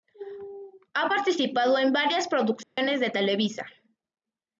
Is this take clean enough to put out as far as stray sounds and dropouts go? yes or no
no